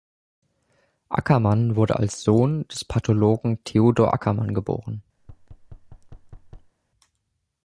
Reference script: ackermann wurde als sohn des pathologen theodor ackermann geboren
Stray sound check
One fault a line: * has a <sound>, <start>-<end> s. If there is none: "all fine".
* has a thud, 5.2-6.7 s